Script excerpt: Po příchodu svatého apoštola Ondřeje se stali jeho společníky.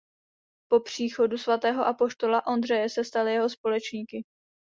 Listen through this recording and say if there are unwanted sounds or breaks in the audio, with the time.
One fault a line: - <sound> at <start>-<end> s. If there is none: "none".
none